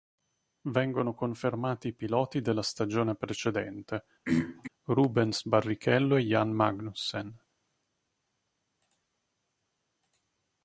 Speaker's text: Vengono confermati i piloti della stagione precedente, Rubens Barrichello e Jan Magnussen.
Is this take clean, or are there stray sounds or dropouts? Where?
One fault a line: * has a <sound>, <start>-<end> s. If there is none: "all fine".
* has a throat clearing, 4.3-4.7 s